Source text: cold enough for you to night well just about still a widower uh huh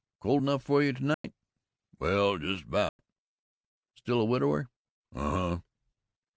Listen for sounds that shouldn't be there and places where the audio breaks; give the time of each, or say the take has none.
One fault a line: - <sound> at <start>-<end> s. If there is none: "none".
- dropout at 1.1-1.2 s
- dropout at 2.9-3.0 s